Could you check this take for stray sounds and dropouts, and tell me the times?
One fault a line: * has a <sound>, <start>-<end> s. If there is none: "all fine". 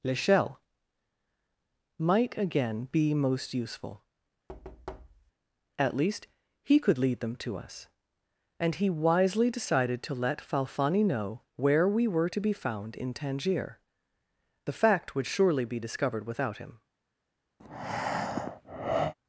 * has a thud, 4.5-5.3 s
* has a breath, 17.6-19.1 s